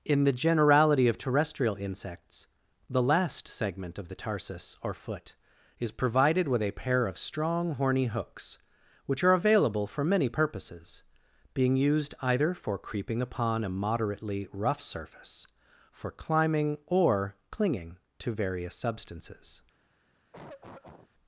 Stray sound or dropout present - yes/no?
yes